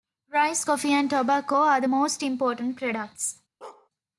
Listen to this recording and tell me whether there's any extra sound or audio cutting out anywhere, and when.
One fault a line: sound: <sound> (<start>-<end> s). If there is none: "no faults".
sound: bark (3.6-3.9 s)